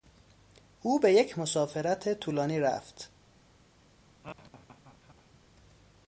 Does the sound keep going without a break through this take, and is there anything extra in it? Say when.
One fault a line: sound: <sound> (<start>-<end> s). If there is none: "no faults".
sound: laugh (4.2-5.4 s)